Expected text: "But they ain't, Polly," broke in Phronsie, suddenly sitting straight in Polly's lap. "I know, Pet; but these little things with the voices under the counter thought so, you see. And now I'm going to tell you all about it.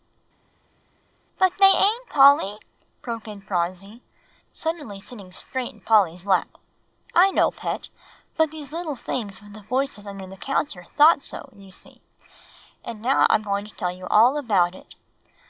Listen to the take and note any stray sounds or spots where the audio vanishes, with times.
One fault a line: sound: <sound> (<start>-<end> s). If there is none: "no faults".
no faults